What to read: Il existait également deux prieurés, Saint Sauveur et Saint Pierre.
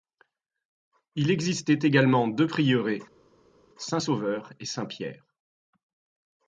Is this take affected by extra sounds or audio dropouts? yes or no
no